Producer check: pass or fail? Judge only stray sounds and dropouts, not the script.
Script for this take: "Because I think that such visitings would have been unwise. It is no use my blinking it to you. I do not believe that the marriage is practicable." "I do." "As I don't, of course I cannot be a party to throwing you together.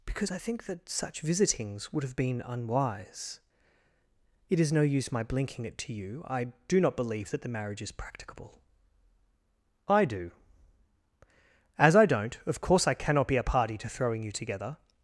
pass